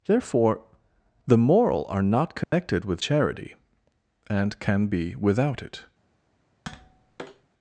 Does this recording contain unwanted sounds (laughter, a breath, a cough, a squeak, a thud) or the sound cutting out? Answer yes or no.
yes